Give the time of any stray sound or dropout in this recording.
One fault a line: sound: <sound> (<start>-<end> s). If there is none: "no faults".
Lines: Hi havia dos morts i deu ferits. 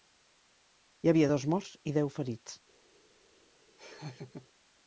sound: laugh (3.8-4.5 s)